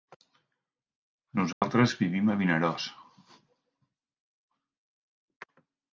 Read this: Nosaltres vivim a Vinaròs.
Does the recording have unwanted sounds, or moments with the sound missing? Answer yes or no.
yes